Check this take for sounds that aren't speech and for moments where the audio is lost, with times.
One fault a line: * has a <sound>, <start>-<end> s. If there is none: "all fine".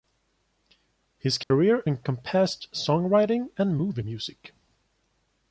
* has a dropout, 1.4-1.5 s